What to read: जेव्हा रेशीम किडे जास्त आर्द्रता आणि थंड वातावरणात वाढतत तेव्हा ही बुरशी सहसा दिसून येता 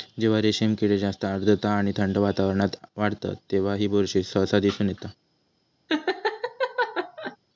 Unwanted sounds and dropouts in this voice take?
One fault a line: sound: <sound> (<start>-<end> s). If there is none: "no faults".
sound: laugh (5.9-7.4 s)